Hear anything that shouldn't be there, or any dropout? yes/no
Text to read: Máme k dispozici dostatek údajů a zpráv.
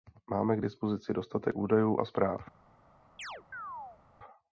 yes